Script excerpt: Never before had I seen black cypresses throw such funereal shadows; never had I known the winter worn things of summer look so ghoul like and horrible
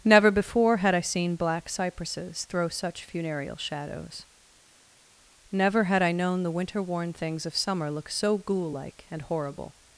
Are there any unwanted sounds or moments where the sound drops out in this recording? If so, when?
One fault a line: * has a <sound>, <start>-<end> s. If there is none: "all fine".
all fine